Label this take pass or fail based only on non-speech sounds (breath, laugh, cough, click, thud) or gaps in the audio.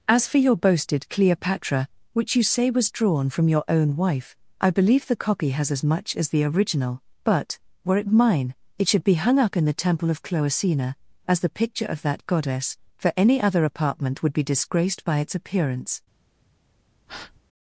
fail